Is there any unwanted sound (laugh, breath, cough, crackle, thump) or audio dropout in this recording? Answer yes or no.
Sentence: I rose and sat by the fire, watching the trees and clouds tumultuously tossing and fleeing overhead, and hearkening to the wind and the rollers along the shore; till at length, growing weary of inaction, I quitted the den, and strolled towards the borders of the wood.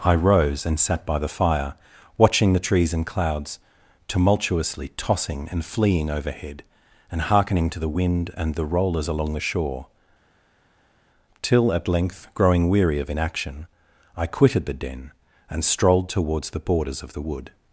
no